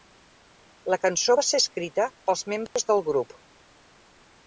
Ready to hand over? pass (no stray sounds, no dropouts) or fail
fail